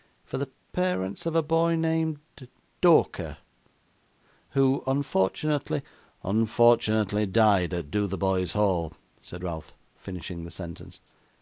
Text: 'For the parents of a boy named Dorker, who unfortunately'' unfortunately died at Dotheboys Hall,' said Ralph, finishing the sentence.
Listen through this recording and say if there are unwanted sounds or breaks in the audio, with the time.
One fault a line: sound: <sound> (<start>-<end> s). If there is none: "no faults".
no faults